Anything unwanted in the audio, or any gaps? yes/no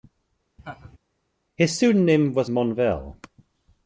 yes